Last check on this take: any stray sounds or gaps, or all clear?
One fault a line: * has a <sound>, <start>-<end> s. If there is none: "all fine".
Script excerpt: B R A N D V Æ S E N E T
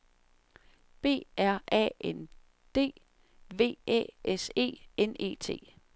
all fine